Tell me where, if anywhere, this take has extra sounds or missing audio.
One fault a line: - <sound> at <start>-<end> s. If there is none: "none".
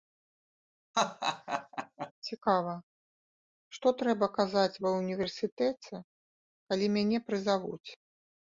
- laugh at 0.9-2.1 s